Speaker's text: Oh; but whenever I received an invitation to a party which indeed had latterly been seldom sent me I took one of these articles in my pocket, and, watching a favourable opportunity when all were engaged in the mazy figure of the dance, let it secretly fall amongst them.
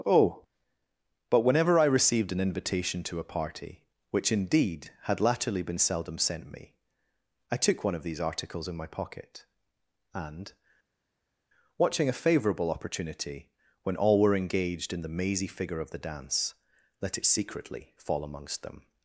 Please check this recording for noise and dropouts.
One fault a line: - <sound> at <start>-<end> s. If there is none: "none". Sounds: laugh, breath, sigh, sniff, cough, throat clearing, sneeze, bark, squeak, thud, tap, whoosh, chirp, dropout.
none